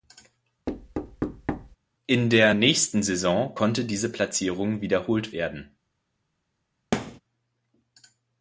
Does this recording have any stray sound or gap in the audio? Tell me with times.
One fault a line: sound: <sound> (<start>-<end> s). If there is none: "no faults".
sound: thud (0.7-1.8 s)
sound: thud (6.9-7.2 s)